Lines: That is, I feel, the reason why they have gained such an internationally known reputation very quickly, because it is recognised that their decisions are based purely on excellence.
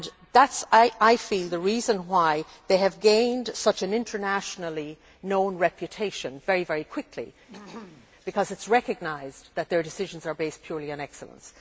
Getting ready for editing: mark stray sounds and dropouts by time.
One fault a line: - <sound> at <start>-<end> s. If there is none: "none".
- throat clearing at 7.5-8.1 s